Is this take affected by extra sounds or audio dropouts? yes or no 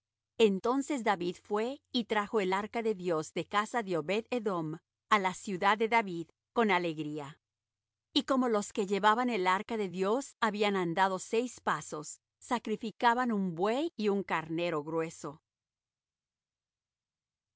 no